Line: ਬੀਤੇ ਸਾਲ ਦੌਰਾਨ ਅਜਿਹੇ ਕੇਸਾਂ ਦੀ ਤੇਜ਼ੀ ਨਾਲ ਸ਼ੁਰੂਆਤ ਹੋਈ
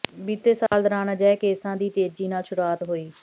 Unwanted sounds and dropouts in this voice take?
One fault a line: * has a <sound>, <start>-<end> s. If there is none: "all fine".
* has a dropout, 0.7-0.7 s